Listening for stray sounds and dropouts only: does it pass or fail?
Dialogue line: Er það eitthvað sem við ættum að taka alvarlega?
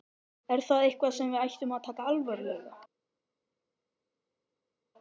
pass